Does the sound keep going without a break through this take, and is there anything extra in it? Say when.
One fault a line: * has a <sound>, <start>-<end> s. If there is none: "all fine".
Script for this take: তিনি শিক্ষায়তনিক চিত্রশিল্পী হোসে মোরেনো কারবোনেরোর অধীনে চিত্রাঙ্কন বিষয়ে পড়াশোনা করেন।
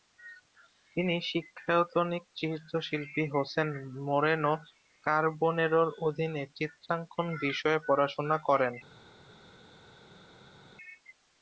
all fine